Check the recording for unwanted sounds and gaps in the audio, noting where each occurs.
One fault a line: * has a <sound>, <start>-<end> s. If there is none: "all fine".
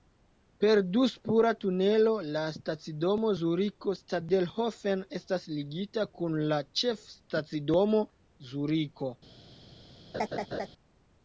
* has a laugh, 10.1-10.7 s